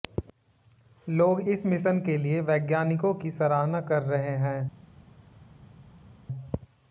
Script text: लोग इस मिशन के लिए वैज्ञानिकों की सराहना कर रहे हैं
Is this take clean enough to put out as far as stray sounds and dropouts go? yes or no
yes